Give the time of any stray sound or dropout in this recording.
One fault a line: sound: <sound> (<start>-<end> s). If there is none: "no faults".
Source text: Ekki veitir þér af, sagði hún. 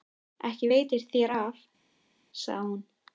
no faults